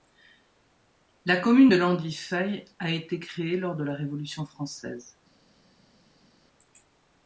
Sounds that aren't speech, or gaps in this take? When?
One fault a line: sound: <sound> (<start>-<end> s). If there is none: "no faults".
no faults